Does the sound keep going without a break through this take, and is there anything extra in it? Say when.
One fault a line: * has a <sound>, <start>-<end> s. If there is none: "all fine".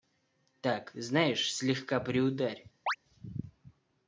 * has a chirp, 2.9-3.0 s